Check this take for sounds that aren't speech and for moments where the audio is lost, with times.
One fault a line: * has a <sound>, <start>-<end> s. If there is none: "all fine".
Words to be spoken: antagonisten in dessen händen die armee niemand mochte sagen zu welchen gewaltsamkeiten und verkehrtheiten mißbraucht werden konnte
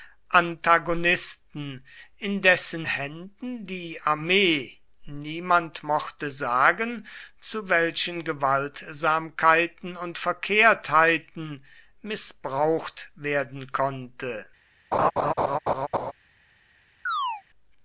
* has a laugh, 14.9-16.1 s
* has a chirp, 17.1-17.4 s